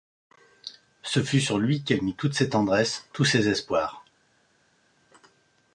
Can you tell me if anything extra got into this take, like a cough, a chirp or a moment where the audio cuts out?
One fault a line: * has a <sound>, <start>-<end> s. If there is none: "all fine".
all fine